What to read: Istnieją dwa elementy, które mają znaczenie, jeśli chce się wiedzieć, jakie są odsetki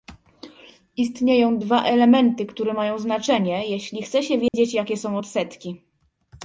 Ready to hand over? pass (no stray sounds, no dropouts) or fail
fail